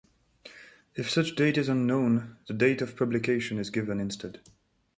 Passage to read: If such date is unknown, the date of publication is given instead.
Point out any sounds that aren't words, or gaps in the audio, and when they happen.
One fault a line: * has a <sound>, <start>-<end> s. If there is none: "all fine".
all fine